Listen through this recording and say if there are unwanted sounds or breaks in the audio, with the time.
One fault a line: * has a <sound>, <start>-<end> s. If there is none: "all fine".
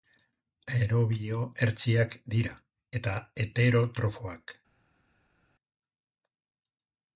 all fine